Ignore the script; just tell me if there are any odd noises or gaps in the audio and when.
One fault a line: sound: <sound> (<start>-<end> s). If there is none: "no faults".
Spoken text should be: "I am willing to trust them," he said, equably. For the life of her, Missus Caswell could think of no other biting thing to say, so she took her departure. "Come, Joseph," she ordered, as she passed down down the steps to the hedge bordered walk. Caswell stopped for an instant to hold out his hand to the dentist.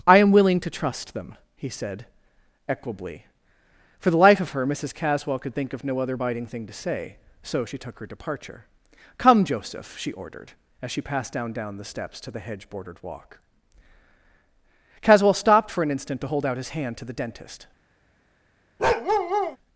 sound: bark (18.8-19.6 s)